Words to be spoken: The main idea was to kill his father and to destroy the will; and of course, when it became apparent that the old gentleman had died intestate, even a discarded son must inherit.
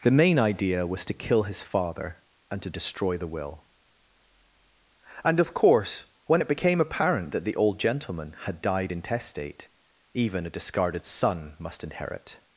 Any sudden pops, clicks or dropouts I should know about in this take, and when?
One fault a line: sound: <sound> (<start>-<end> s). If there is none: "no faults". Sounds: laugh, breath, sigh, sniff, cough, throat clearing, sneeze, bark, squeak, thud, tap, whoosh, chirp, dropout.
no faults